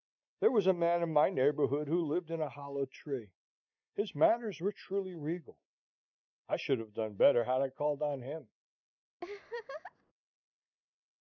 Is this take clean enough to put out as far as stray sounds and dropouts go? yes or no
no